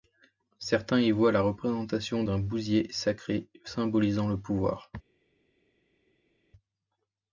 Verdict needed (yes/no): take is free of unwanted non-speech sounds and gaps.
yes